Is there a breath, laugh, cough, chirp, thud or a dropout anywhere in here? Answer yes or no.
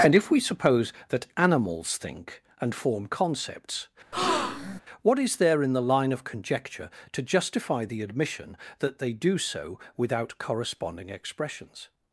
yes